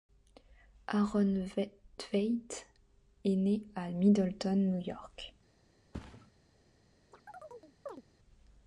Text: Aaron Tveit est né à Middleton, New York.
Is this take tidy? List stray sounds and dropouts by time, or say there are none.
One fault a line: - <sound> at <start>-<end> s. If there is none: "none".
- thud at 5.9-6.3 s
- chirp at 7.1-8.0 s